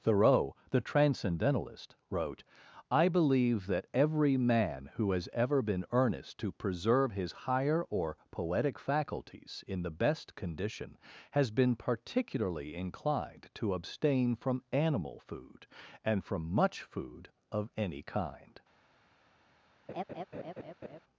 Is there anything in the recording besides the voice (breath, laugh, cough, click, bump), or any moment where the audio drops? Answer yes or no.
yes